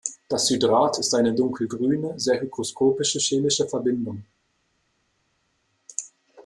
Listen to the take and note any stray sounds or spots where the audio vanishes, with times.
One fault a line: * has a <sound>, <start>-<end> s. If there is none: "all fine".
all fine